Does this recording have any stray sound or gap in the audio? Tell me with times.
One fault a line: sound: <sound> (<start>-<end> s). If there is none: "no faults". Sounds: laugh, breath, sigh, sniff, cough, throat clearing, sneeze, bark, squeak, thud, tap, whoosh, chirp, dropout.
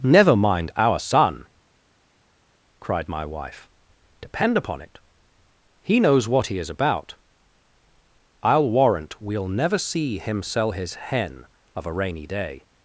no faults